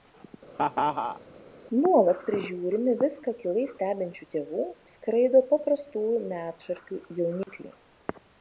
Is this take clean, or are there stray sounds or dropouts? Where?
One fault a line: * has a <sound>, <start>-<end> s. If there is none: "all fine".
* has a laugh, 0.5-1.2 s
* has a dropout, 7.4-7.5 s